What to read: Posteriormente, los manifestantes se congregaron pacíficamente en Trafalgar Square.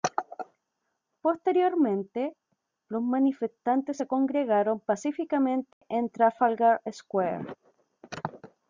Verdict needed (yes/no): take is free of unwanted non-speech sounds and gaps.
no